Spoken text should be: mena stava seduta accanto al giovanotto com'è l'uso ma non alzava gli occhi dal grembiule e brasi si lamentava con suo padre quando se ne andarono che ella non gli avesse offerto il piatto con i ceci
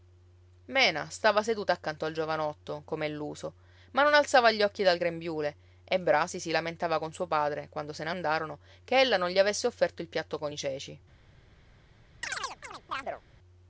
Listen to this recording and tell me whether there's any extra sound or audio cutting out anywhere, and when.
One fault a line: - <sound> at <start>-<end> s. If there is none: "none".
- chirp at 12.2-13.2 s